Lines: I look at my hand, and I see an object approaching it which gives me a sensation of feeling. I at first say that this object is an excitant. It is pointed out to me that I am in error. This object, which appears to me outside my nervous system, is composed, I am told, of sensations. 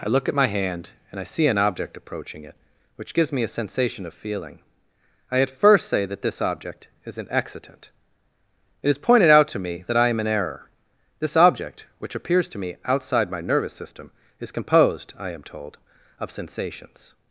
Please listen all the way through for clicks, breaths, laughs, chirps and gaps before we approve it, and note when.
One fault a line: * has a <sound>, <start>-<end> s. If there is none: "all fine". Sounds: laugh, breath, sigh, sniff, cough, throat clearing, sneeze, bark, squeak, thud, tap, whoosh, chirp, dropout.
all fine